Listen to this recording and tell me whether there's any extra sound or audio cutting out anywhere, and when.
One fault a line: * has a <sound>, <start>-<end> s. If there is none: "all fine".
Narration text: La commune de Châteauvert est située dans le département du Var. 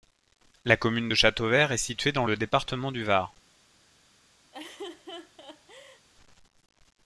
* has a laugh, 4.5-6.1 s